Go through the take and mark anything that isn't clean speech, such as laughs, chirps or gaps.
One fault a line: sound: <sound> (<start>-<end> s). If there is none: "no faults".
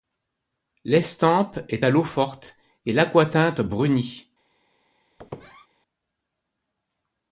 sound: squeak (5.2-5.7 s)